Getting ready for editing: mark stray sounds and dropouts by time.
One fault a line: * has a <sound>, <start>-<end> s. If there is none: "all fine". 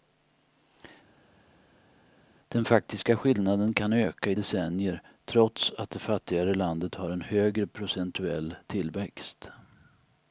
all fine